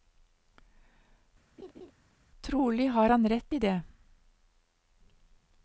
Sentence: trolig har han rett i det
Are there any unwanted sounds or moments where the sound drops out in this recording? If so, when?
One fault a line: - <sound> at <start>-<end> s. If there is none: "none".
- laugh at 1.6-1.9 s